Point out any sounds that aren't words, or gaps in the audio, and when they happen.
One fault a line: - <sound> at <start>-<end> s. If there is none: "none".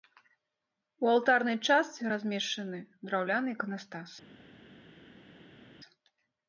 none